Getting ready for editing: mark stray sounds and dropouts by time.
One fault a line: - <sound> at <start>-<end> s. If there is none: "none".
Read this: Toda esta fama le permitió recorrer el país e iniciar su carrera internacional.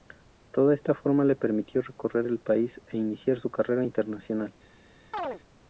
- chirp at 5.1-5.4 s